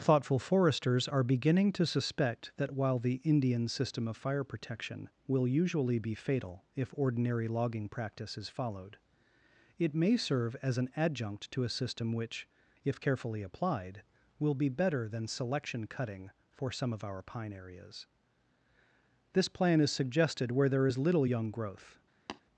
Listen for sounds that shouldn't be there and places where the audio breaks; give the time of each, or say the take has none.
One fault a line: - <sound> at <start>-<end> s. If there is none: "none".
- tap at 22.3-22.4 s